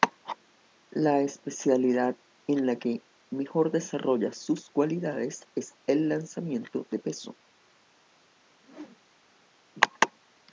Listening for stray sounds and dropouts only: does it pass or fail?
fail